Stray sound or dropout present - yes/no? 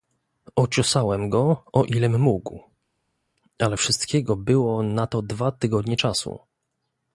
no